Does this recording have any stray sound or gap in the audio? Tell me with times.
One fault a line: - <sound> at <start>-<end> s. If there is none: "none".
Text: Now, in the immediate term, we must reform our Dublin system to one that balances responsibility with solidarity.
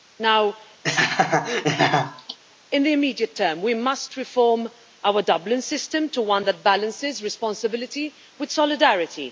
- laugh at 0.8-2.4 s